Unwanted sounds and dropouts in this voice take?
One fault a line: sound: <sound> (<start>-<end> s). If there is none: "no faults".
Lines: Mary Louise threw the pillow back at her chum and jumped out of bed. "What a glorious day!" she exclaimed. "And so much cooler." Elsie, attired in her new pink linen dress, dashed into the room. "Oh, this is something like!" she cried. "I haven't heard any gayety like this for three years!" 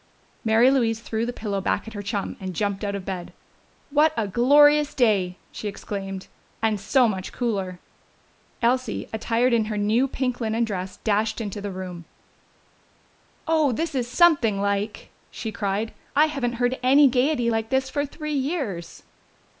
no faults